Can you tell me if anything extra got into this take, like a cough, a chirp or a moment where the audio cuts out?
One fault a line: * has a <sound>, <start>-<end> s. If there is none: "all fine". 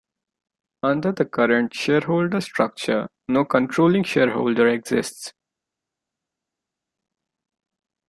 all fine